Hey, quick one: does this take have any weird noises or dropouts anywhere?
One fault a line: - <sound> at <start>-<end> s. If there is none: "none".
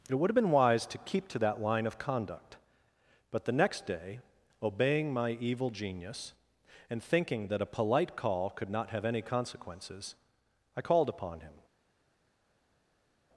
none